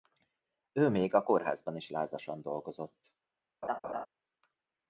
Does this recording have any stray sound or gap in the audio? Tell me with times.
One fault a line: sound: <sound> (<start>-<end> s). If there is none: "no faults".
sound: laugh (3.6-4.1 s)